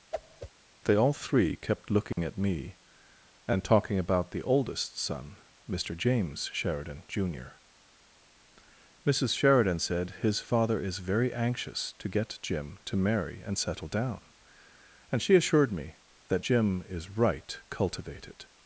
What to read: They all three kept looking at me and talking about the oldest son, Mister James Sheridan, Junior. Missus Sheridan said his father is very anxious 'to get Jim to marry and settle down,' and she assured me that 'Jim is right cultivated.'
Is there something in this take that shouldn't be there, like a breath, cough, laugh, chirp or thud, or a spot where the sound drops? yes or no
yes